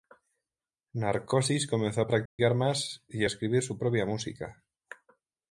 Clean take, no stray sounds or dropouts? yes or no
no